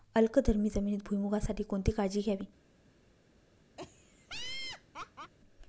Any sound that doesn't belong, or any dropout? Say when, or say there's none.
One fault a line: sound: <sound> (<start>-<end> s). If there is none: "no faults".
sound: laugh (3.8-5.3 s)